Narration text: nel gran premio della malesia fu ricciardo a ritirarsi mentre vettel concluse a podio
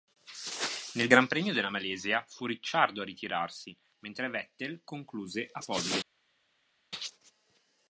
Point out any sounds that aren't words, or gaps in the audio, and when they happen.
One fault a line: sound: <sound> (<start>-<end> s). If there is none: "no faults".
no faults